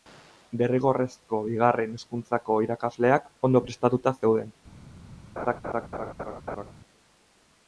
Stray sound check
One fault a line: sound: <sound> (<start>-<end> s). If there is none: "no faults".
sound: laugh (5.4-6.7 s)